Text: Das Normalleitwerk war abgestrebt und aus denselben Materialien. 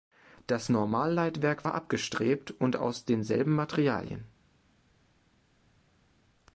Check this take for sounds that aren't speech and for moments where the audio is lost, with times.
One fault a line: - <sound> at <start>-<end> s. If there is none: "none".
none